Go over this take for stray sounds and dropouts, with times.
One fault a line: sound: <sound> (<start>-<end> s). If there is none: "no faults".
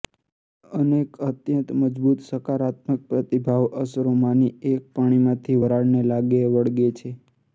no faults